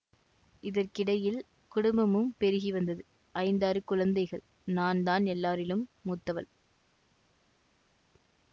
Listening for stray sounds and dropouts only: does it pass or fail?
pass